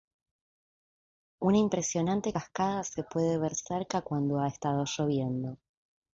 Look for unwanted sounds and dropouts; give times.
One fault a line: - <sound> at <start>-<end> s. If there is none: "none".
none